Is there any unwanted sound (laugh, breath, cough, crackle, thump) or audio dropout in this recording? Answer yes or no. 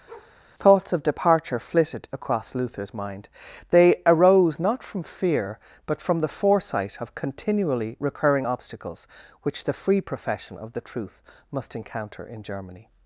yes